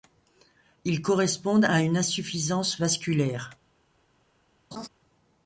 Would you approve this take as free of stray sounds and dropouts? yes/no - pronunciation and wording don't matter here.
no